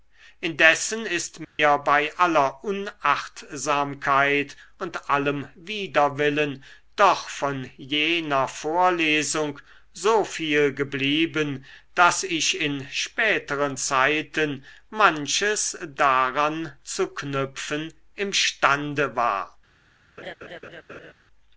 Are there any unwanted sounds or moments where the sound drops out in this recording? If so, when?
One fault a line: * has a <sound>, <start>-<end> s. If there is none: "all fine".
* has a dropout, 1.4-1.6 s
* has a laugh, 20.2-21.1 s